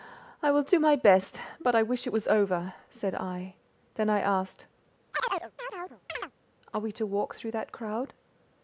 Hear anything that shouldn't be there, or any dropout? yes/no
yes